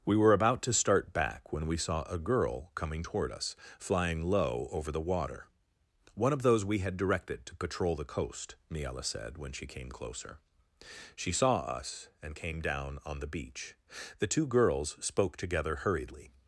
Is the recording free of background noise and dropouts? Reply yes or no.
yes